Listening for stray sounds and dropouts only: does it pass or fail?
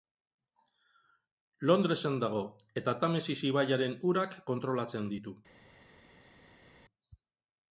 pass